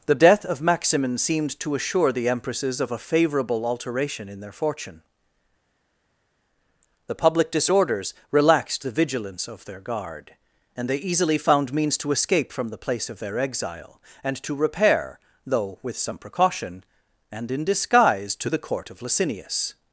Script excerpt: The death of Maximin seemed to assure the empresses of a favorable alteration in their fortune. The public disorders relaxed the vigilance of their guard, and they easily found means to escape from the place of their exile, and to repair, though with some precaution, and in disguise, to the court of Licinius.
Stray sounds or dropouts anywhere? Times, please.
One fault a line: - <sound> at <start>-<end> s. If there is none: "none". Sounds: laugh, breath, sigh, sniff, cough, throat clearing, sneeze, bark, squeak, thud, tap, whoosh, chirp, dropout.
none